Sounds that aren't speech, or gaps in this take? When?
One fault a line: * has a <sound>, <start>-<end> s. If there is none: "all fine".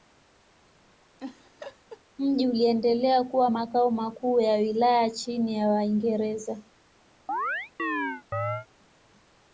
* has a laugh, 1.2-2.0 s
* has a chirp, 7.3-8.7 s